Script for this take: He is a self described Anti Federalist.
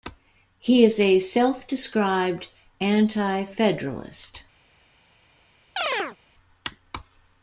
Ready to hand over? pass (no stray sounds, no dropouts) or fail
fail